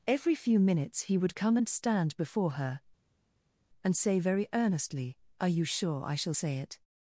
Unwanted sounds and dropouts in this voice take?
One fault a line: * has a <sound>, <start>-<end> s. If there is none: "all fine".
all fine